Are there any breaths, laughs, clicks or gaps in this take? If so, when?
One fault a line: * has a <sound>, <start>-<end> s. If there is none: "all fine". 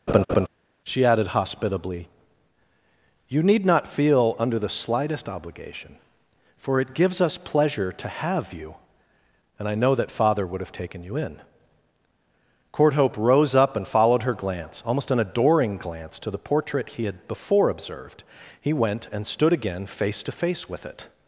* has a laugh, 0.1-0.5 s